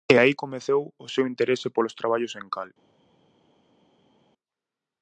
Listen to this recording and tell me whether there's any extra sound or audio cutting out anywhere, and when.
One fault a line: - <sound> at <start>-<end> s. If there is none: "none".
none